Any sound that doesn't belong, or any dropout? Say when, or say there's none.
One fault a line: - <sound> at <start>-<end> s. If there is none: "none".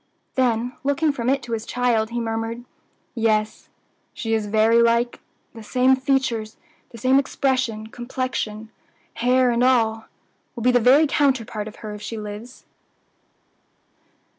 none